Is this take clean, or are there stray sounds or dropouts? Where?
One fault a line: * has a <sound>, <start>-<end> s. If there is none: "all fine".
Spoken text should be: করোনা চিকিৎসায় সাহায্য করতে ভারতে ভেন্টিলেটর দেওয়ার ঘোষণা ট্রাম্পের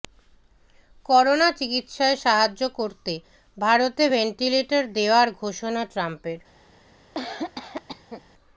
* has a cough, 7.1-8.2 s